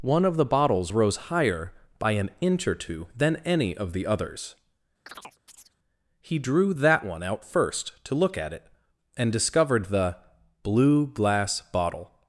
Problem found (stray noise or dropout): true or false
true